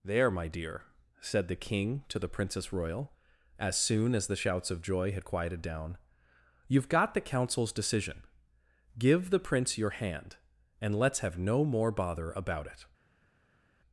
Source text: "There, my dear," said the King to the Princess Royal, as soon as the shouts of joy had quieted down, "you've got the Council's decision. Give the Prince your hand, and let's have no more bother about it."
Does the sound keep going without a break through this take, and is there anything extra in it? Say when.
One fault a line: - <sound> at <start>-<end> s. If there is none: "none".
none